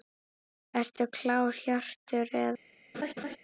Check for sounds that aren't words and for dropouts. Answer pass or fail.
fail